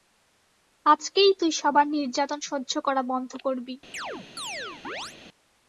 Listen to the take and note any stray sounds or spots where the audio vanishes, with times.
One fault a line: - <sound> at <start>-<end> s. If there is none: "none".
- chirp at 3.9-5.2 s